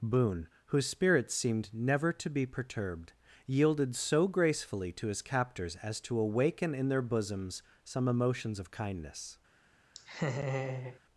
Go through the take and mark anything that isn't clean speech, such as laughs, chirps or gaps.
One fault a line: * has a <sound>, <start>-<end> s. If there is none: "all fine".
* has a laugh, 9.9-11.0 s